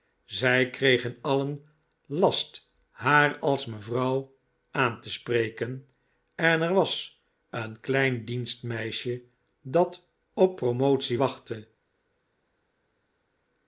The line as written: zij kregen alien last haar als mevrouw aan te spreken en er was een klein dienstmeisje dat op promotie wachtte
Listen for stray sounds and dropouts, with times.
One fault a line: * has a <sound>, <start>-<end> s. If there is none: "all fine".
all fine